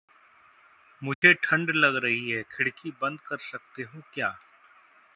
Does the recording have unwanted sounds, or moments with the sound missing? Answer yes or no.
yes